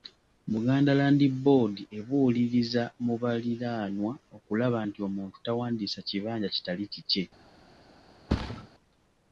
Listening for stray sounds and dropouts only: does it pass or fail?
fail